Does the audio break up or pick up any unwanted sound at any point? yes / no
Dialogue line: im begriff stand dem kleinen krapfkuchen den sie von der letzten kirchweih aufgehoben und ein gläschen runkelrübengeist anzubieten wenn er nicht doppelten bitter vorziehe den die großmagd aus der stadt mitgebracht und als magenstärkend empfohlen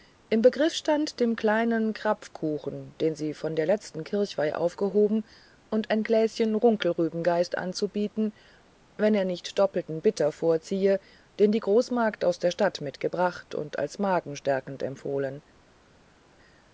no